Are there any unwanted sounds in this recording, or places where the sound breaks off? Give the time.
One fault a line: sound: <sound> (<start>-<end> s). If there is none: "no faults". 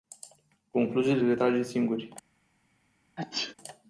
sound: sneeze (3.2-3.5 s)